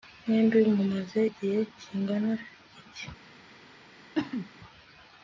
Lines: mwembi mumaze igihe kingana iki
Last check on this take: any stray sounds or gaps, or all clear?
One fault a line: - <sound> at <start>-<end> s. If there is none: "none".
- cough at 4.1-4.5 s